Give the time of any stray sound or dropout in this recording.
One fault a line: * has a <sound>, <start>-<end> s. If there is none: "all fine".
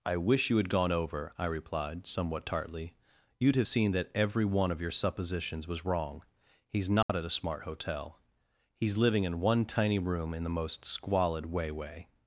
* has a dropout, 7.0-7.1 s